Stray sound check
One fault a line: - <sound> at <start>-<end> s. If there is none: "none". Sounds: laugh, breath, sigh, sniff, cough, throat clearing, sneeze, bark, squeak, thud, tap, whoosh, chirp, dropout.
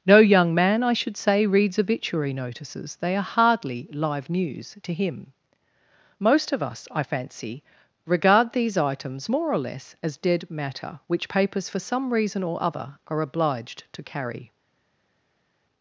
none